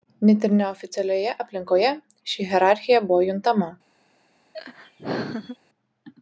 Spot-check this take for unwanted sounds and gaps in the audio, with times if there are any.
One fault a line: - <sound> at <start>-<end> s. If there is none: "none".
- laugh at 4.5-5.6 s